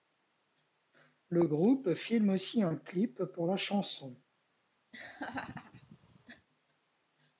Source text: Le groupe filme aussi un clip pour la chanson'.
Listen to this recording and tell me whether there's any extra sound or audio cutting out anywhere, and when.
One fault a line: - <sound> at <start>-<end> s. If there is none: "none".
- laugh at 4.9-6.5 s